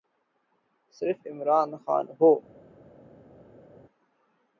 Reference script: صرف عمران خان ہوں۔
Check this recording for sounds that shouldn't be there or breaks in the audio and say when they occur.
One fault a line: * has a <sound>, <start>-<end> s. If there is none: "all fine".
all fine